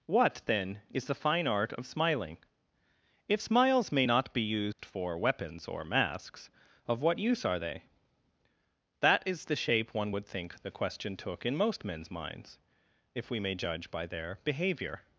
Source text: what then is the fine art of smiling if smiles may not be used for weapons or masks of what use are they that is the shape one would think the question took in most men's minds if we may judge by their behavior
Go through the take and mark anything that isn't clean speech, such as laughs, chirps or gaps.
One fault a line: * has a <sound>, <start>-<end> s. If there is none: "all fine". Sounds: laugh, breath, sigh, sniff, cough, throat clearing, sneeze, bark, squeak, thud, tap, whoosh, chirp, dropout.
* has a dropout, 4.7-4.8 s